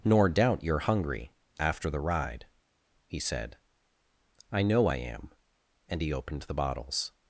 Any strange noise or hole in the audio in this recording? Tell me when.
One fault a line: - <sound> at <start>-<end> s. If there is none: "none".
none